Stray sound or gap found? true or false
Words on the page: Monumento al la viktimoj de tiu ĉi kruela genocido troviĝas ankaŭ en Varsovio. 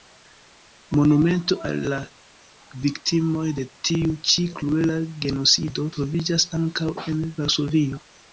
false